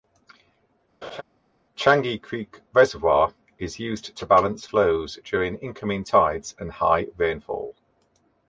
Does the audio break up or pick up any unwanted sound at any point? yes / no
yes